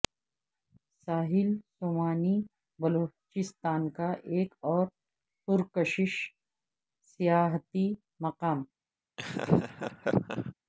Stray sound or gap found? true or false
true